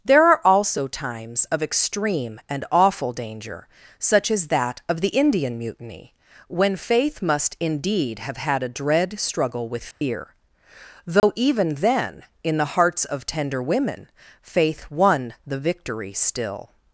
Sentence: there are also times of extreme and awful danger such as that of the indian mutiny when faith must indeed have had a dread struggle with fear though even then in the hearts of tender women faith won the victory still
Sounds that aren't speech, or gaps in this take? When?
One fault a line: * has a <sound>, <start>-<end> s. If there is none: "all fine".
* has a dropout, 9.9-10.0 s
* has a dropout, 11.2-11.2 s